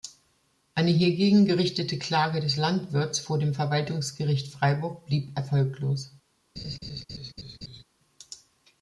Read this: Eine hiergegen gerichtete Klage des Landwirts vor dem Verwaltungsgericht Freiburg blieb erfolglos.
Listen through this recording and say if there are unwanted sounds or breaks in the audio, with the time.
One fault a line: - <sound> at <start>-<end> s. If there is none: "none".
- laugh at 6.6-7.8 s